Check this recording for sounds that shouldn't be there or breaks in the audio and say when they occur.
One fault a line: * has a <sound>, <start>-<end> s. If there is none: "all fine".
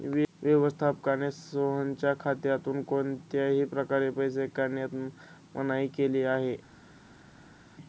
all fine